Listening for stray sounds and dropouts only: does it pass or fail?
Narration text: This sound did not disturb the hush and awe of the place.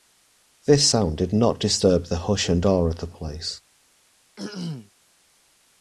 fail